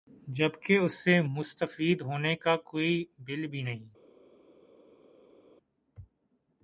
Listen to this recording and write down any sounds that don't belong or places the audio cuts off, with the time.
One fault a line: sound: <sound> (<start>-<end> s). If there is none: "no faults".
no faults